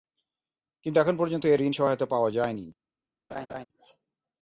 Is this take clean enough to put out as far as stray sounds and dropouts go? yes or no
no